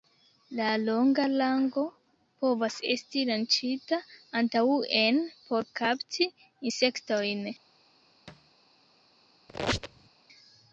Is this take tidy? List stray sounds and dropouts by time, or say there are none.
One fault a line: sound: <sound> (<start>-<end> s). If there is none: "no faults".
sound: thud (8.3-8.5 s)
sound: squeak (9.5-10.1 s)